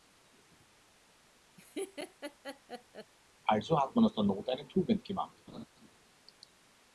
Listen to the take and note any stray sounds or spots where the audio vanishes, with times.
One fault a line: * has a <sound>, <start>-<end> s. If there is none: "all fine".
* has a laugh, 1.6-3.1 s
* has a laugh, 5.5-5.7 s